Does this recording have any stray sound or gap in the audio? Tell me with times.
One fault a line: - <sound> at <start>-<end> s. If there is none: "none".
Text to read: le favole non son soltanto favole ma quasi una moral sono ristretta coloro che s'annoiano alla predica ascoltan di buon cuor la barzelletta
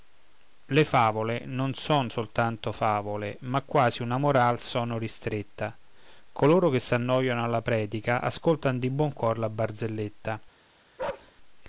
- bark at 11.0-11.3 s